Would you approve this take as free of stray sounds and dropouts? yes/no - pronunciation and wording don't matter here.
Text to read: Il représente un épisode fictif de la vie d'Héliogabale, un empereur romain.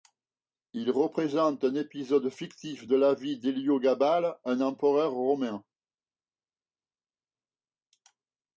yes